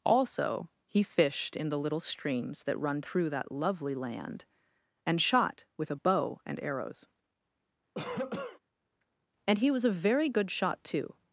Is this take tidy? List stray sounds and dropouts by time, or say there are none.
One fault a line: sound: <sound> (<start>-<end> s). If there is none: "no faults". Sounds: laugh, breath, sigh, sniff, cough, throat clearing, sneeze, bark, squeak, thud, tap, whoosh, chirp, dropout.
sound: cough (7.9-8.6 s)